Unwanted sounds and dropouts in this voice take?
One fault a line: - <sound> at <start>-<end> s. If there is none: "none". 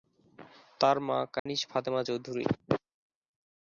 - dropout at 1.4-1.5 s